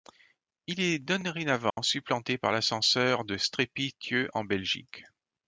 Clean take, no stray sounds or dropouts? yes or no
no